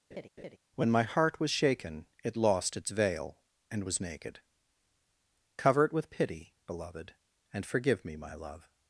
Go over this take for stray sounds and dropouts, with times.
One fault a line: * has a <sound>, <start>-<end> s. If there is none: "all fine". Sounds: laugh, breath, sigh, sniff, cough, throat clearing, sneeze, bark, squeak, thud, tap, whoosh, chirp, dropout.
* has a laugh, 0.1-0.6 s